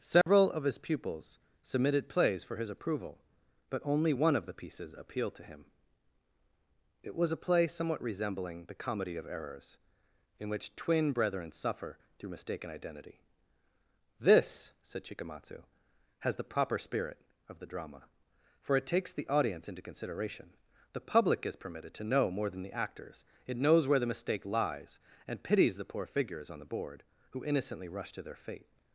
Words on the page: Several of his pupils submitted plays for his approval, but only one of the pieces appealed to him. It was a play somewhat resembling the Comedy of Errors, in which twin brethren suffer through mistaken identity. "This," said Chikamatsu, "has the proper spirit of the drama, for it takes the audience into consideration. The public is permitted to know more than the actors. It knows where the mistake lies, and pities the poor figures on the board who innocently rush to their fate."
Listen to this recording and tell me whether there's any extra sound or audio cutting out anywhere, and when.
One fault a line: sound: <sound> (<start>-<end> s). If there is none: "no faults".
sound: dropout (0.2-0.3 s)